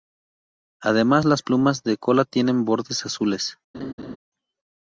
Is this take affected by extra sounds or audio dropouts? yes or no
yes